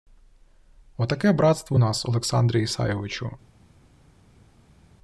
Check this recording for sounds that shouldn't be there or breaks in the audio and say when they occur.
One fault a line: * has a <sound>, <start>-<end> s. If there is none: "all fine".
all fine